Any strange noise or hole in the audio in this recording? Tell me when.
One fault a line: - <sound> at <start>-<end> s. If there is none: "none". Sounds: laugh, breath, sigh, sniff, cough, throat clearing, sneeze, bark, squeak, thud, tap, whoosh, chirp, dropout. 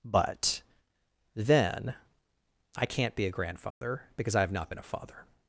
- dropout at 3.7-3.8 s